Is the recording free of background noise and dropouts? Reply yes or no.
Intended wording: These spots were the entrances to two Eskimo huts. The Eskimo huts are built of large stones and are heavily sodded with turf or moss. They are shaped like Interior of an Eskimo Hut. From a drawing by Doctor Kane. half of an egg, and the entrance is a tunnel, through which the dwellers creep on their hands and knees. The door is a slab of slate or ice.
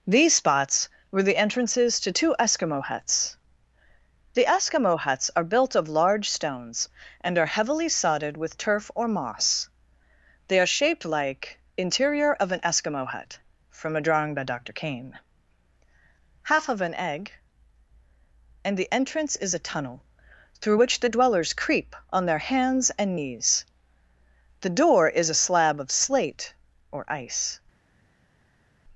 yes